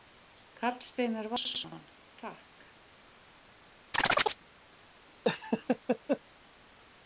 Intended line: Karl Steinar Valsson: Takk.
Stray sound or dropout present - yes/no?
yes